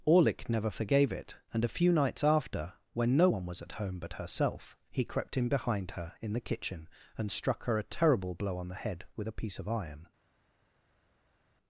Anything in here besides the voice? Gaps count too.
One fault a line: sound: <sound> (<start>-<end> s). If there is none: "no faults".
no faults